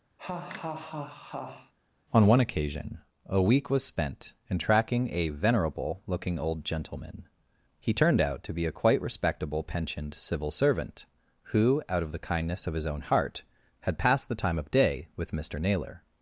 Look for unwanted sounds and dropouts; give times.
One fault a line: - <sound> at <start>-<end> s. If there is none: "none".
- laugh at 0.2-1.7 s